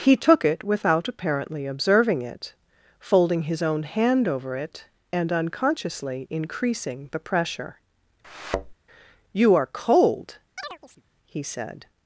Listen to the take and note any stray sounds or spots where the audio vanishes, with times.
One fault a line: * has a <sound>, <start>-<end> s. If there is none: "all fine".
* has a thud, 8.2-8.7 s
* has a chirp, 10.6-11.0 s